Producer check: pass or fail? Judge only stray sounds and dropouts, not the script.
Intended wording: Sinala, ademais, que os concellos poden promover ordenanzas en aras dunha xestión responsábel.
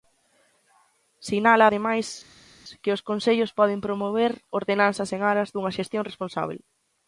pass